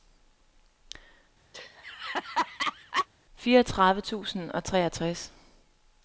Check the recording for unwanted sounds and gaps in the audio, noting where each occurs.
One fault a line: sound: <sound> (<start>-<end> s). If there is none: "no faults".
sound: laugh (1.5-3.1 s)